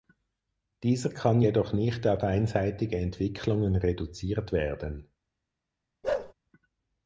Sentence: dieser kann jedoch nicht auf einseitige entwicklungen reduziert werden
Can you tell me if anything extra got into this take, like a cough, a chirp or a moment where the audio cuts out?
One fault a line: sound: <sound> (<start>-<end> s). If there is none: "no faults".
sound: bark (6.0-6.3 s)